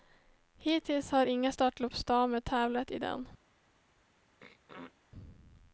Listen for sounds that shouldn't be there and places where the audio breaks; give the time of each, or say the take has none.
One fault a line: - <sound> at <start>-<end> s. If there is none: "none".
- throat clearing at 4.4-5.0 s